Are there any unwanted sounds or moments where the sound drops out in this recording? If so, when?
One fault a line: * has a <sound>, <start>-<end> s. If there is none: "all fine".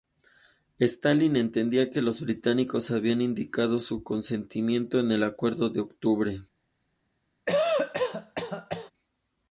* has a cough, 7.5-8.9 s